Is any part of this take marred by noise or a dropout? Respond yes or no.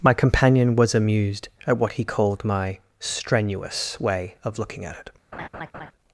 yes